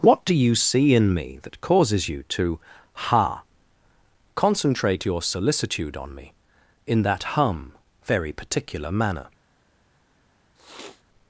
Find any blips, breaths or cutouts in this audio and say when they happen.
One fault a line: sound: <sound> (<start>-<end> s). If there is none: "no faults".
sound: sniff (10.6-11.0 s)